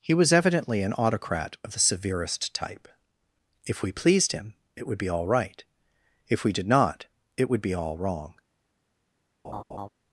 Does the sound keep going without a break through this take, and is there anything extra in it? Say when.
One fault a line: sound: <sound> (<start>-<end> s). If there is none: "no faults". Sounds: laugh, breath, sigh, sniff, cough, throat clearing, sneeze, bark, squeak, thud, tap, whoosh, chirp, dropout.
sound: laugh (9.4-9.9 s)